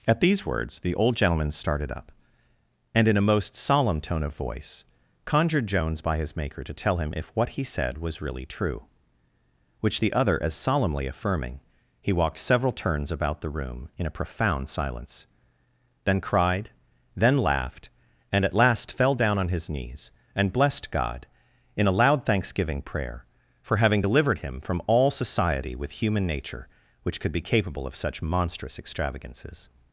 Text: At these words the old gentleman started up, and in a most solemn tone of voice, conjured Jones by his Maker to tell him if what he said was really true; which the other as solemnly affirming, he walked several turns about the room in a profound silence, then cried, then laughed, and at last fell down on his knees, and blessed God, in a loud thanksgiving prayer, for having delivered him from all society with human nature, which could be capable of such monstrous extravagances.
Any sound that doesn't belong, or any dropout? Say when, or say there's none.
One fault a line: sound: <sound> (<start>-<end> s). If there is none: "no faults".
no faults